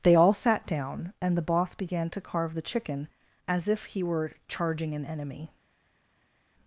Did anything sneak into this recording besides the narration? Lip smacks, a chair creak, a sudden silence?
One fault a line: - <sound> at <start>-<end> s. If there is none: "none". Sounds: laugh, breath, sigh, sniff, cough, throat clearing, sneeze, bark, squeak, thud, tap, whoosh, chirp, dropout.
none